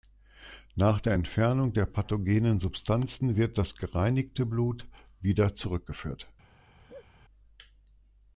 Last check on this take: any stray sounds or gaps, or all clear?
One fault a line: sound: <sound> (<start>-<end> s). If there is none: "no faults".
sound: laugh (6.8-7.1 s)